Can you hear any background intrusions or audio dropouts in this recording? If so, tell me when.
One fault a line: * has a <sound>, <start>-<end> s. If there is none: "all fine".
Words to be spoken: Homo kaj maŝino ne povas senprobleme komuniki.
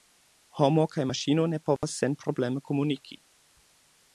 * has a dropout, 1.8-1.8 s